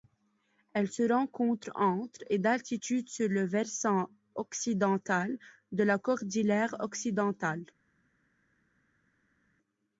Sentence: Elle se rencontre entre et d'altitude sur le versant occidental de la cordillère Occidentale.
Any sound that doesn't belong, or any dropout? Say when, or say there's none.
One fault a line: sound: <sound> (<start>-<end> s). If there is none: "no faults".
no faults